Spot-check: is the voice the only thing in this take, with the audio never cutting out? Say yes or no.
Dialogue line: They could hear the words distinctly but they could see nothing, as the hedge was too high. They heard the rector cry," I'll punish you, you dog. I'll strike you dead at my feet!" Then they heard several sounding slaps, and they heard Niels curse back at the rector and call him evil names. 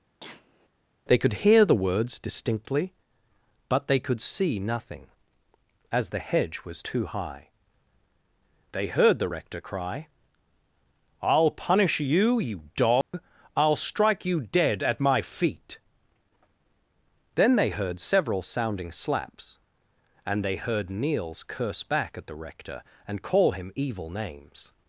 no